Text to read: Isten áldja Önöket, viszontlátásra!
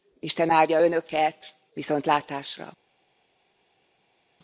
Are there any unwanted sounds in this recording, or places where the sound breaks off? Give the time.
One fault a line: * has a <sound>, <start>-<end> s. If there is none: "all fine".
all fine